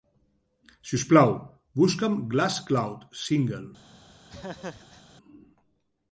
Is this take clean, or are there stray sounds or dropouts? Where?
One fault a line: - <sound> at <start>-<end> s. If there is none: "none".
- laugh at 4.3-5.0 s